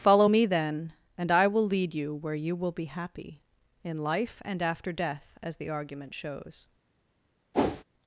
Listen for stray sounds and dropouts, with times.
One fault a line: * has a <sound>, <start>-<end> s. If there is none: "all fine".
* has a whoosh, 7.5-7.8 s